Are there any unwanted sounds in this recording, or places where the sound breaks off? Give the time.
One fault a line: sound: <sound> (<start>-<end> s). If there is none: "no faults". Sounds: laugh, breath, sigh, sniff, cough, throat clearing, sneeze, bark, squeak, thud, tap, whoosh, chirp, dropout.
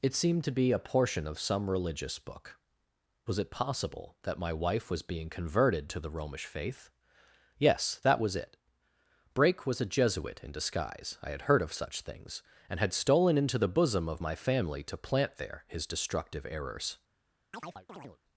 sound: chirp (17.5-18.2 s)